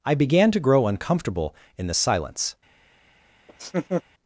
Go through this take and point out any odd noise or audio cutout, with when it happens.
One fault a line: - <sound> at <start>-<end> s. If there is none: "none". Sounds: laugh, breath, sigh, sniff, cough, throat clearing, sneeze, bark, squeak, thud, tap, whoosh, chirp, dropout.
- laugh at 3.5-4.0 s